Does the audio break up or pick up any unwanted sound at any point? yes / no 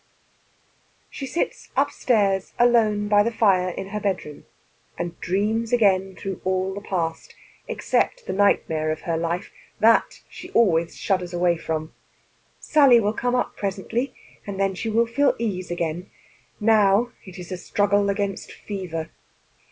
no